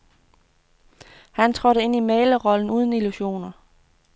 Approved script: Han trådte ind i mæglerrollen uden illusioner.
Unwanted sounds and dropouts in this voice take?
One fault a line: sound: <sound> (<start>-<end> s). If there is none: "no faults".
no faults